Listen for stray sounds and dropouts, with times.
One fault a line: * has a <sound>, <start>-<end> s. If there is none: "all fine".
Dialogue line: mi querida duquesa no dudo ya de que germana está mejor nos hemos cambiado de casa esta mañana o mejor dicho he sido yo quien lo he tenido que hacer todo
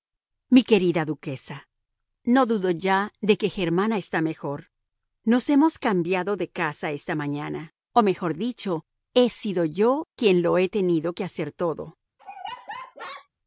* has a laugh, 12.2-13.3 s